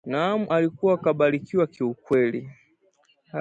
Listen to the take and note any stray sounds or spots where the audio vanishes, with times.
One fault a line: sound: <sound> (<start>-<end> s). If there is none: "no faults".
no faults